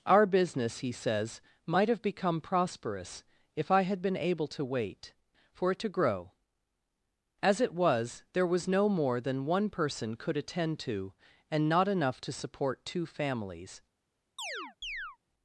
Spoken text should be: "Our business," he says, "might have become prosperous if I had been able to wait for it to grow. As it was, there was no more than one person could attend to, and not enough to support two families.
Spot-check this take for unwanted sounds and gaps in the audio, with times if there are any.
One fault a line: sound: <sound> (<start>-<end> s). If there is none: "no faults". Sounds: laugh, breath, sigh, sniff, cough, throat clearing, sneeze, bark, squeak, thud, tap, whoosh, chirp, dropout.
sound: chirp (14.4-15.2 s)